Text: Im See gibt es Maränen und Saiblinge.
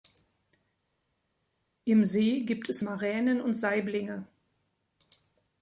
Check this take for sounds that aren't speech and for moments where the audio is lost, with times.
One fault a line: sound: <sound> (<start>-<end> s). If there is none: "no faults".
no faults